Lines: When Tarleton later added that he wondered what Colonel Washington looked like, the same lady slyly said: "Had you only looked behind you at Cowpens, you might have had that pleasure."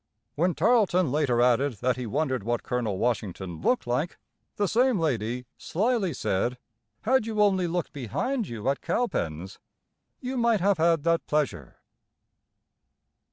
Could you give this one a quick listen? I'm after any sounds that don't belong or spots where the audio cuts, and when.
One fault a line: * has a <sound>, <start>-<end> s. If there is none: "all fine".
all fine